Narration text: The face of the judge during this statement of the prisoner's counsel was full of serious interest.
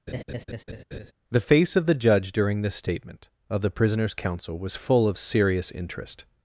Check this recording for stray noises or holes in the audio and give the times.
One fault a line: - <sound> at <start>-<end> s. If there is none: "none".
- laugh at 0.1-1.1 s